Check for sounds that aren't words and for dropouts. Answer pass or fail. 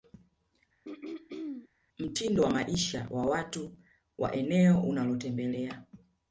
fail